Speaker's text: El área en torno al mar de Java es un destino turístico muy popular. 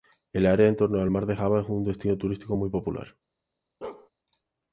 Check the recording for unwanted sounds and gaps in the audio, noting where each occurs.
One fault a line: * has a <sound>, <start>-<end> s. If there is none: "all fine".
* has a bark, 3.8-4.1 s